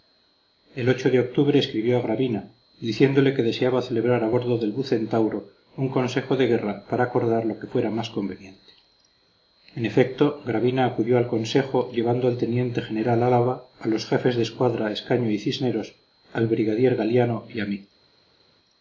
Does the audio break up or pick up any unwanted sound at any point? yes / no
no